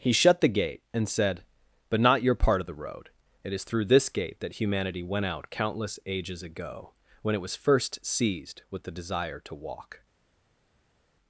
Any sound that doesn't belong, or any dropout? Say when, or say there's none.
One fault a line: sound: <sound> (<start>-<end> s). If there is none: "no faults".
no faults